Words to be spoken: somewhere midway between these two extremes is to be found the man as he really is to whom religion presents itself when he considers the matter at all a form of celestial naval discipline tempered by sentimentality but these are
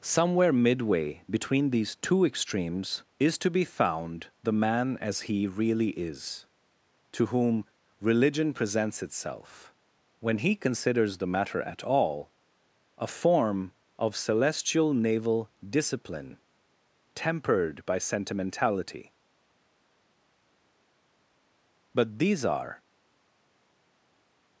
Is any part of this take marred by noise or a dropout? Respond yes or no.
no